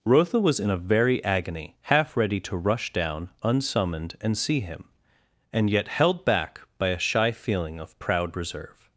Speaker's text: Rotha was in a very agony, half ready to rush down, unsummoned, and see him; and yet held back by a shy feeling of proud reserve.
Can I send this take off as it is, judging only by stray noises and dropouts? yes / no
yes